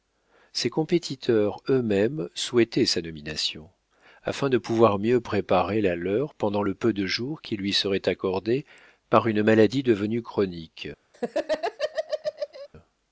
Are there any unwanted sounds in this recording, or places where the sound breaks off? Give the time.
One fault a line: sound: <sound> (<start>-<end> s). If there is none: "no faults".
sound: laugh (11.1-12.7 s)